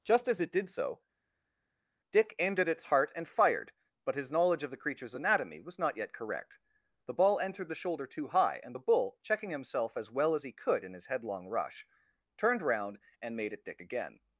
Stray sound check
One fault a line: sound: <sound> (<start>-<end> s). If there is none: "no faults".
no faults